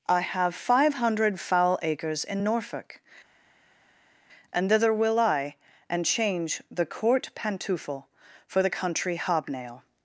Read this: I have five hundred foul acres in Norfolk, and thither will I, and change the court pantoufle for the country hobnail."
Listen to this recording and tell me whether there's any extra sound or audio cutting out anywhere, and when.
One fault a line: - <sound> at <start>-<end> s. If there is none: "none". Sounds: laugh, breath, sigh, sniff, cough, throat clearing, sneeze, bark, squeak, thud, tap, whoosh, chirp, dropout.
none